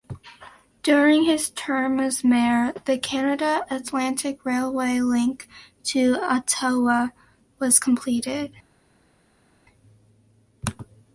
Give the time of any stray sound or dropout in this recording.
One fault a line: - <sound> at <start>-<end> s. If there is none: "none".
none